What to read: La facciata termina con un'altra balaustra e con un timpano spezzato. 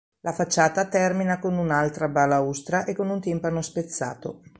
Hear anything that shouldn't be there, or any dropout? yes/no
no